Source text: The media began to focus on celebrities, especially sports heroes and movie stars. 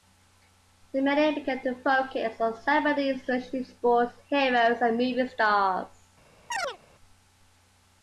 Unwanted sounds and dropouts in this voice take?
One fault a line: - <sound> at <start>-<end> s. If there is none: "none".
- chirp at 6.5-6.8 s